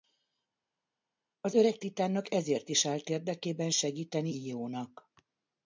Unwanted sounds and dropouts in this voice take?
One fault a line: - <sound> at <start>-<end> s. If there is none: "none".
none